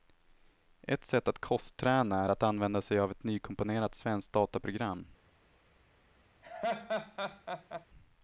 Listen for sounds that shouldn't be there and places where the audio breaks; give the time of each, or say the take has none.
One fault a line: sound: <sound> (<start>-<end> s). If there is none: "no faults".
sound: laugh (6.4-7.9 s)